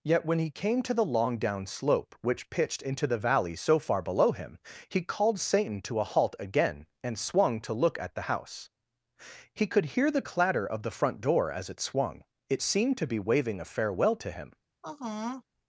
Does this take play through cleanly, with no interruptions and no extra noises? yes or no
no